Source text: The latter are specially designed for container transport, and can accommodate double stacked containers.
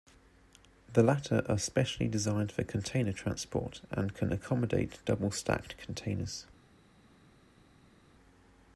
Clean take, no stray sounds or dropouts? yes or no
yes